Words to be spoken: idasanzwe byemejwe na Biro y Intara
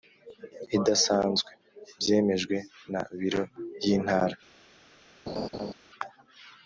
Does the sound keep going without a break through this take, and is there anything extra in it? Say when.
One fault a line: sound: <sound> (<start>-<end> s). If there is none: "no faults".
sound: laugh (5.3-5.7 s)